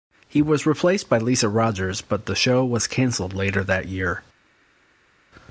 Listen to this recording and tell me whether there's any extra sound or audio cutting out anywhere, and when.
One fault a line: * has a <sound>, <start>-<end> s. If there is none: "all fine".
all fine